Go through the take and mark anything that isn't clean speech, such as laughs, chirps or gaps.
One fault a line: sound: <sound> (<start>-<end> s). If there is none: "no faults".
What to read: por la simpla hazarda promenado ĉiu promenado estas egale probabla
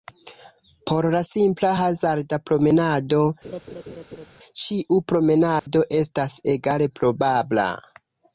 sound: laugh (3.4-4.3 s)
sound: dropout (5.6-5.7 s)